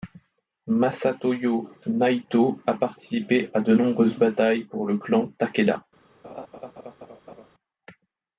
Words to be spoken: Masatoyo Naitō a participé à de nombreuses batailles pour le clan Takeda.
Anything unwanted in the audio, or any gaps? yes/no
yes